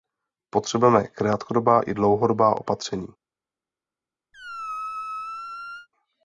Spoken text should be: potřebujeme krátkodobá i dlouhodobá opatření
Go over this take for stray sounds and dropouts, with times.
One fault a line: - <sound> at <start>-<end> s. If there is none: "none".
- squeak at 4.3-5.9 s